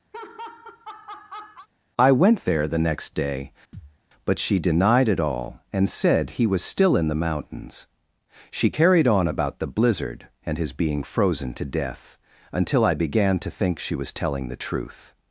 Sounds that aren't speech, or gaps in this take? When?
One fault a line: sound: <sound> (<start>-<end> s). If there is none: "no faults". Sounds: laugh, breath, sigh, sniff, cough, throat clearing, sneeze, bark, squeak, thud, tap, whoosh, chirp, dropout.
sound: laugh (0.1-1.7 s)
sound: thud (3.7-4.0 s)